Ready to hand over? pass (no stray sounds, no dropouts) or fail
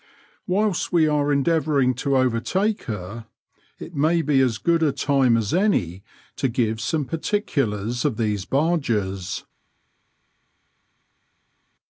pass